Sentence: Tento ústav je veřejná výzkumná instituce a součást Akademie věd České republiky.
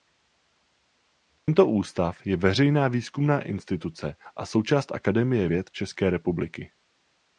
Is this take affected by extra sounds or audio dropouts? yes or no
yes